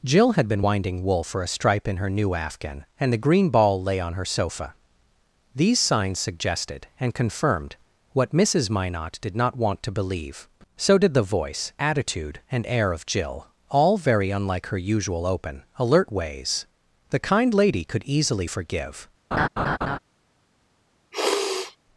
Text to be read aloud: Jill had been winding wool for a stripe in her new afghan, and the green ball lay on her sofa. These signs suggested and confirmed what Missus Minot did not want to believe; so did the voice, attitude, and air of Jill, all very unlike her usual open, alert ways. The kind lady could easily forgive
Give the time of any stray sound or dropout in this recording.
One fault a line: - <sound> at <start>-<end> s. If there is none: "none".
- laugh at 19.3-20.0 s
- sniff at 21.1-21.8 s